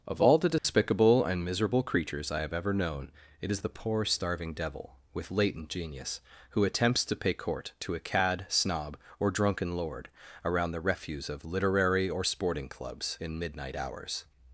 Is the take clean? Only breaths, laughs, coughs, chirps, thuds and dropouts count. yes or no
no